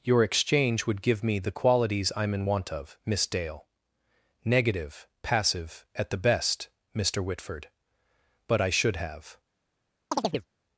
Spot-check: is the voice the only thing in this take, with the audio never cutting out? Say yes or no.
no